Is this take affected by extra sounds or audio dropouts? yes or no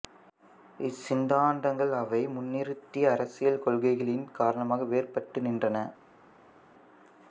no